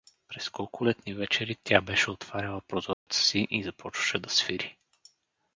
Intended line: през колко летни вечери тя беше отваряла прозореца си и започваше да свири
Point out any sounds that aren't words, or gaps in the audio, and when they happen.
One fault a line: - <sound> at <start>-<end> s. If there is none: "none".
- dropout at 2.9-3.1 s